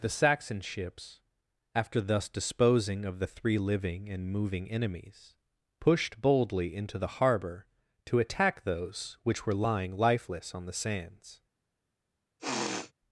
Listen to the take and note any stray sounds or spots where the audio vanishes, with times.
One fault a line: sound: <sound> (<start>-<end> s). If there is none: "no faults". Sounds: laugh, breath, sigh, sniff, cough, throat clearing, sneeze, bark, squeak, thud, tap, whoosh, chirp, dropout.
sound: sniff (12.4-12.9 s)